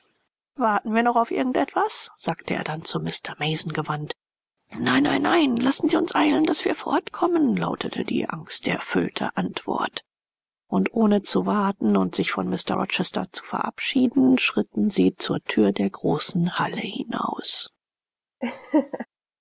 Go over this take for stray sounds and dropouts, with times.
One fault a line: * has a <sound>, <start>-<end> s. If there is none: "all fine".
* has a laugh, 18.4-19.1 s